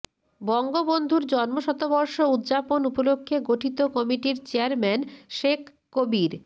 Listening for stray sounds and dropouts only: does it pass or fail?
pass